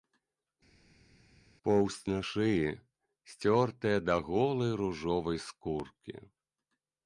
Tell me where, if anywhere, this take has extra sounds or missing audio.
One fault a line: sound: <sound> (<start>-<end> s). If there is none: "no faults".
no faults